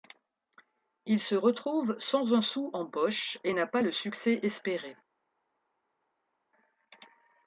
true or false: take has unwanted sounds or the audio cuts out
false